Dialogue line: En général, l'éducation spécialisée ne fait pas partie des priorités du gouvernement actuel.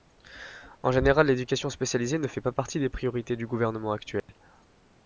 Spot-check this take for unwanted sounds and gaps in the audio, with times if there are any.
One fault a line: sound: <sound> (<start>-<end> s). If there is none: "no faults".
sound: dropout (4.2-4.3 s)